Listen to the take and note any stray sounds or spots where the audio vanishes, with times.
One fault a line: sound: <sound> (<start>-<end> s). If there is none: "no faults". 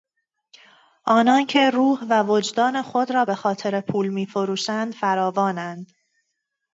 no faults